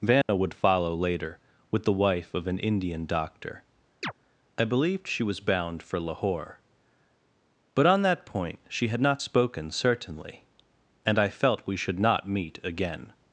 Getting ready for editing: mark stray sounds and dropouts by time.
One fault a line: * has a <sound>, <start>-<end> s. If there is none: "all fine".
* has a dropout, 0.2-0.3 s
* has a chirp, 4.0-4.1 s